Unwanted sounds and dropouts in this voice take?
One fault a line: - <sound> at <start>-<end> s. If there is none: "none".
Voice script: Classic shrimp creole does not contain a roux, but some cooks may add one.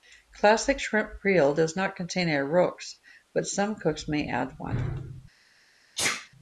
- sneeze at 6.0-6.3 s